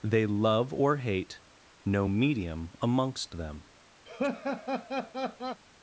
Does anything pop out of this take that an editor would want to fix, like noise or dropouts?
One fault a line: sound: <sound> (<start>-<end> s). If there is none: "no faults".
sound: laugh (4.0-5.6 s)